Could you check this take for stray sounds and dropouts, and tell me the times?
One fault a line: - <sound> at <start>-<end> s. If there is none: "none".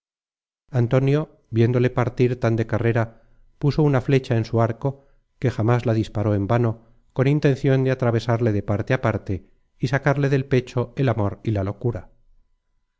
none